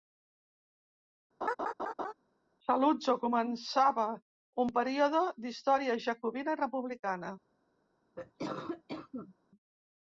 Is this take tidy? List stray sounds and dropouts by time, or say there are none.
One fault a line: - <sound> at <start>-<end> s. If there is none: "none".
- laugh at 1.4-2.1 s
- cough at 8.2-9.4 s